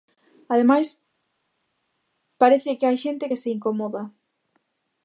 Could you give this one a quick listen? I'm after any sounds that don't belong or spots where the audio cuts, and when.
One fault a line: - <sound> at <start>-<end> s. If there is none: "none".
none